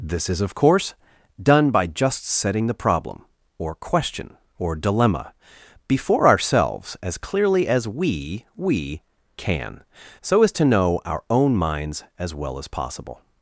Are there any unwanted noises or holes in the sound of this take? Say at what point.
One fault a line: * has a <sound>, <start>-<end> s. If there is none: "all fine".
all fine